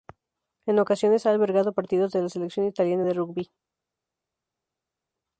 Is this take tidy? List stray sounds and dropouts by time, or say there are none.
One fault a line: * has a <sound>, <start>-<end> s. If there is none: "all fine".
all fine